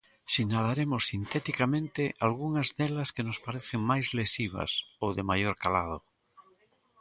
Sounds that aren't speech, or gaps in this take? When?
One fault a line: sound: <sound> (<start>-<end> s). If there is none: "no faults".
no faults